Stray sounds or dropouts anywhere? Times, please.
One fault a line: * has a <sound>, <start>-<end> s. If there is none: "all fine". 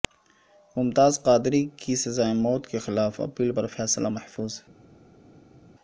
all fine